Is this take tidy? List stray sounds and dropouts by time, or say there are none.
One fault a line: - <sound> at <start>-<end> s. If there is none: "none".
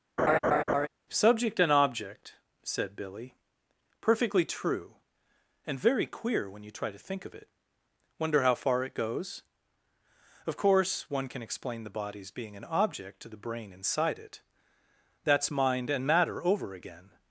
- laugh at 0.2-0.9 s